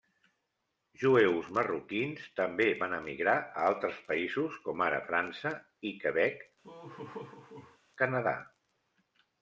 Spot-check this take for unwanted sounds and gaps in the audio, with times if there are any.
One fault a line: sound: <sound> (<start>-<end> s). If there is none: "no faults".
sound: laugh (6.6-7.8 s)